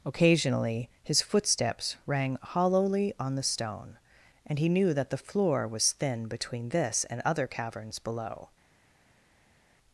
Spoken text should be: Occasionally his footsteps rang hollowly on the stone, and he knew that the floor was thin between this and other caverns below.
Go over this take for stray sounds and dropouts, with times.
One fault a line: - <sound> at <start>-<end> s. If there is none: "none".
none